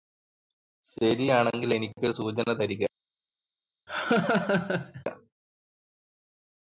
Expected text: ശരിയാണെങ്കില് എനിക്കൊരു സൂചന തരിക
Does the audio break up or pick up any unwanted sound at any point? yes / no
yes